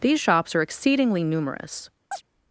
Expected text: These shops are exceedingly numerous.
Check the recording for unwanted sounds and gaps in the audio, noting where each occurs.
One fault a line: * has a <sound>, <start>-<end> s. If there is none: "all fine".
* has a chirp, 2.1-2.2 s